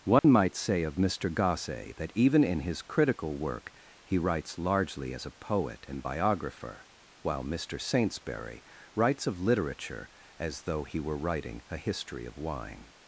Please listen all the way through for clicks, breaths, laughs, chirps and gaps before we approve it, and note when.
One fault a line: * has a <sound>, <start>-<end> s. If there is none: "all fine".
* has a dropout, 0.2-0.2 s